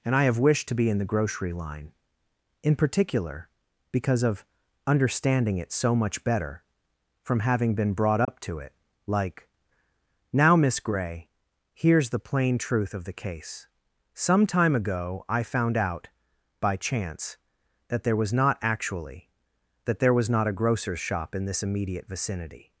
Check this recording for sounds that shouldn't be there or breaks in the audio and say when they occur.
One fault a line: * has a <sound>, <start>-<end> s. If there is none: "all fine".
* has a dropout, 8.2-8.3 s